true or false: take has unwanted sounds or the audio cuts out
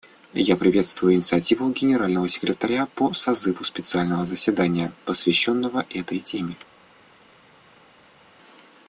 false